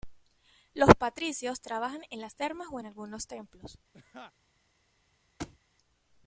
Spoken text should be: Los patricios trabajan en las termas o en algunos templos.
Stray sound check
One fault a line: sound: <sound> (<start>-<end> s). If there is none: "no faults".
sound: laugh (3.9-4.3 s)
sound: thud (5.4-5.6 s)